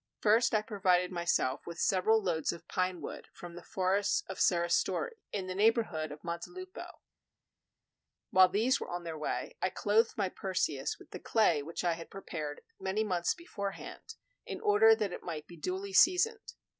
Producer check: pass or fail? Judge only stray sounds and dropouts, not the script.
pass